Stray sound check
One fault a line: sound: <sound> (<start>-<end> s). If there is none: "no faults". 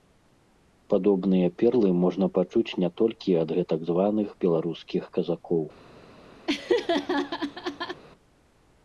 sound: laugh (6.5-8.0 s)